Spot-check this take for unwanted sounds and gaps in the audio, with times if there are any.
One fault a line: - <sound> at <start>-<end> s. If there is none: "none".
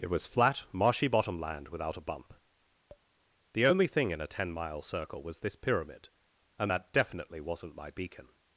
- tap at 2.9-3.1 s